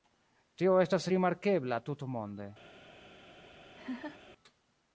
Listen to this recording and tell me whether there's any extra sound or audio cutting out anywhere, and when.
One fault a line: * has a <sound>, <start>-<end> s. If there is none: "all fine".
* has a laugh, 3.7-4.2 s